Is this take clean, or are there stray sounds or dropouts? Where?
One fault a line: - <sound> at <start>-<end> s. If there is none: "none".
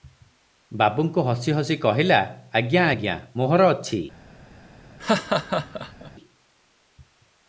- laugh at 5.0-6.1 s